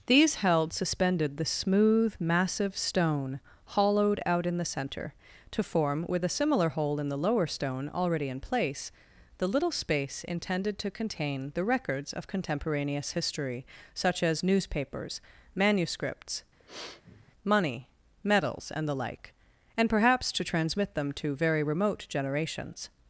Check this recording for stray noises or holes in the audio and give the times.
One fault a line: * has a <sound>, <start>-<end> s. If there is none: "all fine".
* has a sniff, 16.6-17.3 s